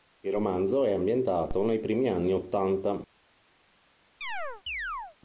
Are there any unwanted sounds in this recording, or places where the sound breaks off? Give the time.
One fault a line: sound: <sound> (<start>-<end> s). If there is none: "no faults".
sound: chirp (4.2-5.2 s)